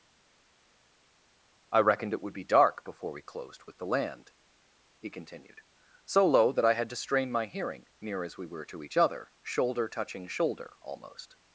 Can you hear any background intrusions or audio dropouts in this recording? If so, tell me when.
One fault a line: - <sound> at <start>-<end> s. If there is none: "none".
none